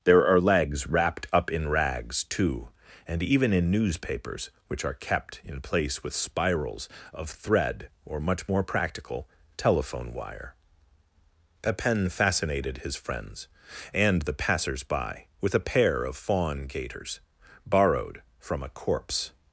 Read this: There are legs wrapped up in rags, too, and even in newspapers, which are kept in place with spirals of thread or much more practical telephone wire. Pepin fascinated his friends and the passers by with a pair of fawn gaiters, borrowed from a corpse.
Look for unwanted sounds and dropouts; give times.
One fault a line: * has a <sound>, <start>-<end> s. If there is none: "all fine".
all fine